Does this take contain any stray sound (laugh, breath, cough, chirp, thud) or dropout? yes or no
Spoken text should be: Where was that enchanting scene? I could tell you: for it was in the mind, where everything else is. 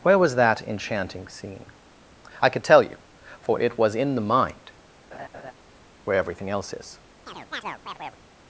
yes